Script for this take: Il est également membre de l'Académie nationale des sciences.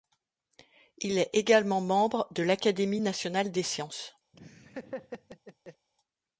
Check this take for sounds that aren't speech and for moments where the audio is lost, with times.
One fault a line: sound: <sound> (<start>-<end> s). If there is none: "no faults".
sound: laugh (4.3-5.9 s)